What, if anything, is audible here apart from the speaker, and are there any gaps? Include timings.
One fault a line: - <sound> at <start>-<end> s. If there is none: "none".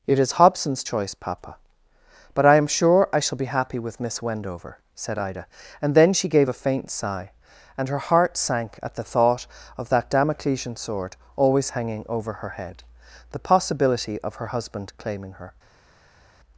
none